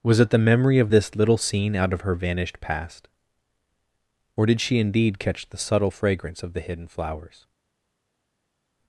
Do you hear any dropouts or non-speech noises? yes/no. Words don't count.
no